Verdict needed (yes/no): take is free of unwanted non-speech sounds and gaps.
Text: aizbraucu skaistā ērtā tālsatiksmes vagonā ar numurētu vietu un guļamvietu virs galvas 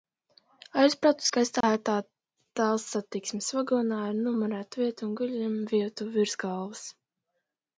no